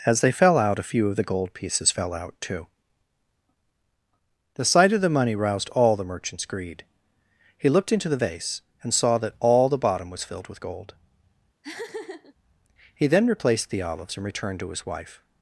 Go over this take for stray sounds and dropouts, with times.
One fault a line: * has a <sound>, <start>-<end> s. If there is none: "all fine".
* has a laugh, 11.6-12.3 s